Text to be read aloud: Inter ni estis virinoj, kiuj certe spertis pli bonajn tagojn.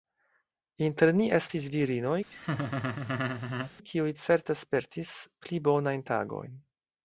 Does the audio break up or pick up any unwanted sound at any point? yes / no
yes